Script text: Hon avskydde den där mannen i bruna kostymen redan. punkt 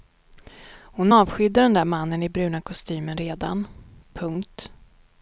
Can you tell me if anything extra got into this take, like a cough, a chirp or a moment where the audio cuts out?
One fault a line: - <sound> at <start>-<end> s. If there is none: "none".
none